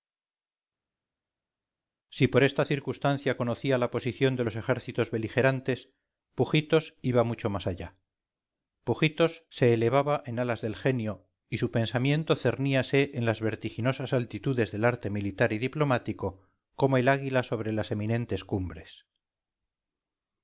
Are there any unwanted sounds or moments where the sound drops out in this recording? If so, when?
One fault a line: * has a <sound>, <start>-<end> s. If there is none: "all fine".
all fine